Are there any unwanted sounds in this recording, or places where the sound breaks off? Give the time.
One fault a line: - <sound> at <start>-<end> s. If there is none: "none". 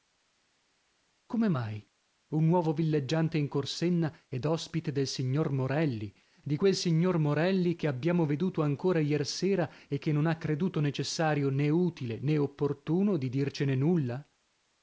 none